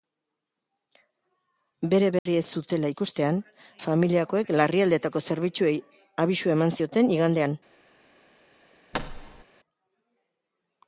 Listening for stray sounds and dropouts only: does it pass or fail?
fail